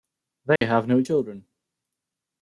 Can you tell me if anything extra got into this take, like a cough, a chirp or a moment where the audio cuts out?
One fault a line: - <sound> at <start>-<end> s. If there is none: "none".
- dropout at 0.6-0.6 s